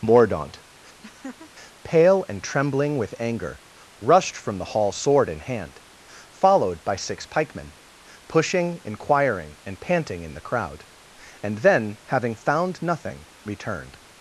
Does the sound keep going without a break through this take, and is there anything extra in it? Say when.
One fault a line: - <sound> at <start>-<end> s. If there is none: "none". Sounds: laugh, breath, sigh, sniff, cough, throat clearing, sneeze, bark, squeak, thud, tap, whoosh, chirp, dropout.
- laugh at 1.0-1.5 s